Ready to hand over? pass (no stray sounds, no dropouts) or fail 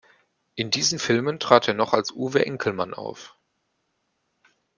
pass